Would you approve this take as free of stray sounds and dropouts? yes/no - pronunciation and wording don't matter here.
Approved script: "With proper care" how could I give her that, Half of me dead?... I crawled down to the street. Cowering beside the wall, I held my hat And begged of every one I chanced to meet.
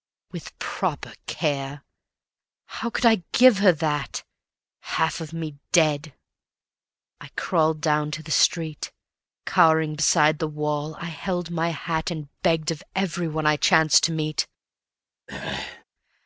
no